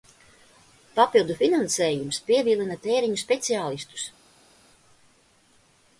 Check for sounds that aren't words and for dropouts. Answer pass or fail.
pass